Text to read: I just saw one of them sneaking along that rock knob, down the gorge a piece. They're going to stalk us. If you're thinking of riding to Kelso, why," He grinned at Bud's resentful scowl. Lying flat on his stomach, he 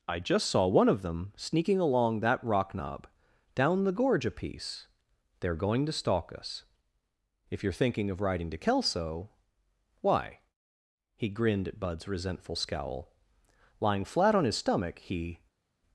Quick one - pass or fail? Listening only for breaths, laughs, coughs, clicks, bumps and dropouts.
pass